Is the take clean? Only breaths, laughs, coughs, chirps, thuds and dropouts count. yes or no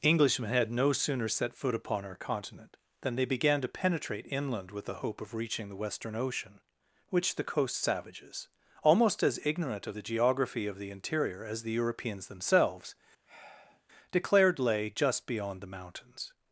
no